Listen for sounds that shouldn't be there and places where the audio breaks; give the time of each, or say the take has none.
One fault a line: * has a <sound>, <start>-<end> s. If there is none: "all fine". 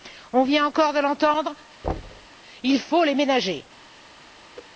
* has a thud, 1.8-2.3 s
* has a whoosh, 4.5-4.7 s